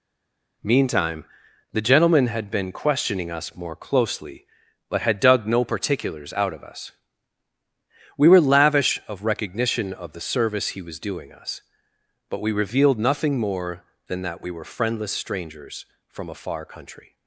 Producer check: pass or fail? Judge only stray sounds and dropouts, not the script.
pass